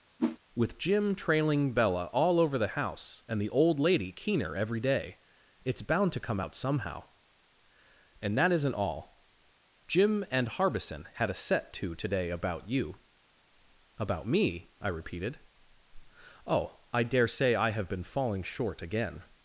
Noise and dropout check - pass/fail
fail